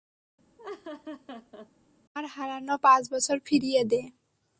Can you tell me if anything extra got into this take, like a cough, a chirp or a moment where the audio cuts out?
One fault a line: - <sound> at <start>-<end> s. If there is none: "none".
- laugh at 0.6-1.7 s